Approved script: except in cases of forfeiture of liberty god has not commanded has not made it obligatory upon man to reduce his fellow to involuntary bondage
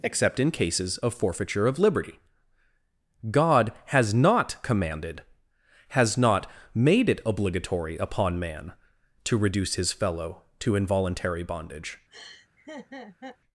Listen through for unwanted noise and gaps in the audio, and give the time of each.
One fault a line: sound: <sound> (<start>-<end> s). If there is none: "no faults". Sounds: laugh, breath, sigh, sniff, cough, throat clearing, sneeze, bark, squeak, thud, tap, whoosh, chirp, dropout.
sound: laugh (12.1-13.4 s)